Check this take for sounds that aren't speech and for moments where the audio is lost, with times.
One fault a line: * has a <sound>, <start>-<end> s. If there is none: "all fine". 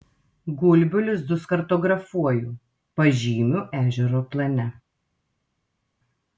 all fine